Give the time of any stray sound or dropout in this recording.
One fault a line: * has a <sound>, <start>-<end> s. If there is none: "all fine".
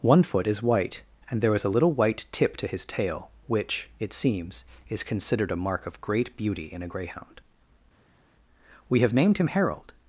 all fine